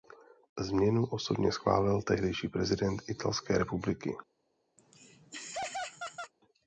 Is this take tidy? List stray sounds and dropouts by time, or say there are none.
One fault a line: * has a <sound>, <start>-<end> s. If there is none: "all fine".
* has a laugh, 4.8-6.3 s